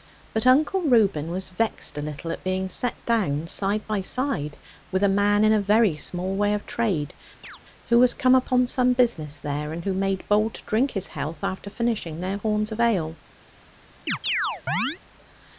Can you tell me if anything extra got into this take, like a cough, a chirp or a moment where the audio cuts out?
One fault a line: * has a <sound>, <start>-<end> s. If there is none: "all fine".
* has a chirp, 7.4-7.6 s
* has a chirp, 14.1-15.0 s